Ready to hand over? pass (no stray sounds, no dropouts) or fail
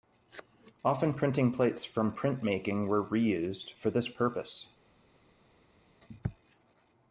pass